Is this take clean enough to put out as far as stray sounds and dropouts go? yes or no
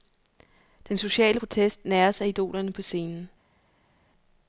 yes